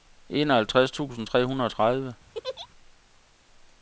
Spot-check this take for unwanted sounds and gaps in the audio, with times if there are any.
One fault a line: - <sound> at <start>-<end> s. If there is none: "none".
- laugh at 2.3-2.7 s